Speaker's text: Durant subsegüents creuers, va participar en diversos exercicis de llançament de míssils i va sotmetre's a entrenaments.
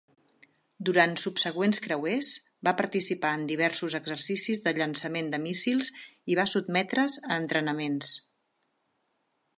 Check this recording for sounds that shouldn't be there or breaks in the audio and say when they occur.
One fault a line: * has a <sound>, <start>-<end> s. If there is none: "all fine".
all fine